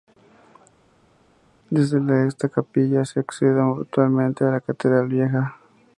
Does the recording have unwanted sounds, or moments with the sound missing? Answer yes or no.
no